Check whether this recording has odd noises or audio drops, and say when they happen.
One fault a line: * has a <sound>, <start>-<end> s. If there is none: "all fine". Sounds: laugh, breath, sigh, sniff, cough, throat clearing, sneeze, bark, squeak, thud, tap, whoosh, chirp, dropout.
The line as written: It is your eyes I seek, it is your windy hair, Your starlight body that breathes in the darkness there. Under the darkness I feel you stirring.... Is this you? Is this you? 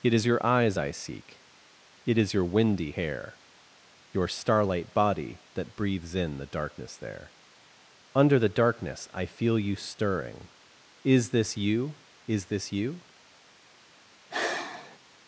* has a sigh, 14.3-15.0 s